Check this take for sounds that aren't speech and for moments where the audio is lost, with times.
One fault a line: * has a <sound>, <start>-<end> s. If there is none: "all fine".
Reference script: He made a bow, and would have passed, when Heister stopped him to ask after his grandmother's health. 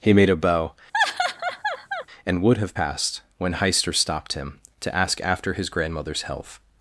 * has a laugh, 0.9-2.1 s